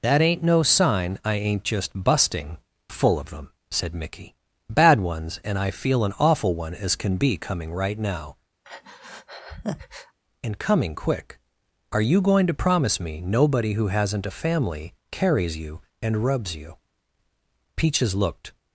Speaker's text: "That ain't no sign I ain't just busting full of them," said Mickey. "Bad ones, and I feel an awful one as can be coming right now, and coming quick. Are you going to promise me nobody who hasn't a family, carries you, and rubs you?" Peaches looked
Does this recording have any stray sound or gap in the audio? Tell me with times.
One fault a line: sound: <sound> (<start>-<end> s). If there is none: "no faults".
sound: breath (8.6-10.2 s)